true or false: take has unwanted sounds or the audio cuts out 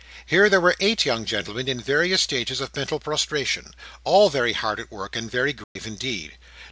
true